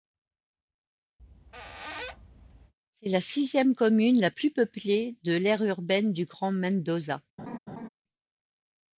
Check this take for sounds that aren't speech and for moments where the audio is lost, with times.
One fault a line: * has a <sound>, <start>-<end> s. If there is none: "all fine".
* has a squeak, 1.2-2.7 s
* has a laugh, 7.4-7.9 s